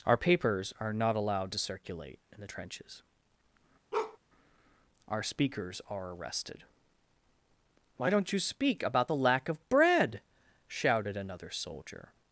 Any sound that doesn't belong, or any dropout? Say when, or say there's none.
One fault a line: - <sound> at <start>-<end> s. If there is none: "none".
- bark at 3.9-4.2 s